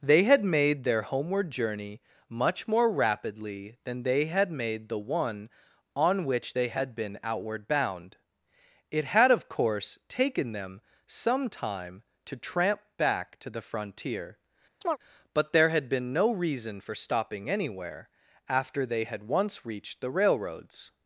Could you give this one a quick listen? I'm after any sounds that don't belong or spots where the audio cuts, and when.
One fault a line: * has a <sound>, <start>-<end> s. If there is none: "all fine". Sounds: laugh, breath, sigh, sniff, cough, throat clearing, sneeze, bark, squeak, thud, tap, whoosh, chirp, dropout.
* has a chirp, 14.8-15.0 s